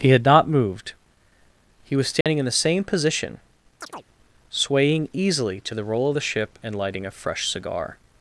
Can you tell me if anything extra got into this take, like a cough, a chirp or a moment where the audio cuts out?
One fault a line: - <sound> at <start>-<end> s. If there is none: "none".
- dropout at 2.2-2.3 s
- chirp at 3.8-4.0 s